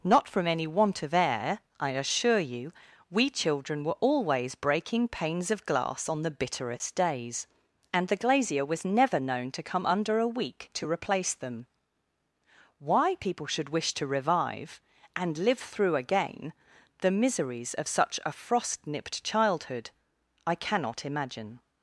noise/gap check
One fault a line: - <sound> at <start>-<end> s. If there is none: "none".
none